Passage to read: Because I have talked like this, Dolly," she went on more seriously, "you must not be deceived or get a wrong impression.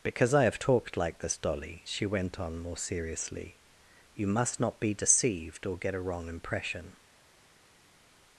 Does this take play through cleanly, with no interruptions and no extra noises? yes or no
yes